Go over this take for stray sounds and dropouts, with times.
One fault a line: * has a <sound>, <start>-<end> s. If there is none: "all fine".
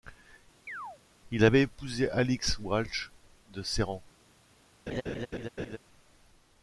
* has a chirp, 0.7-1.0 s
* has a laugh, 4.9-5.8 s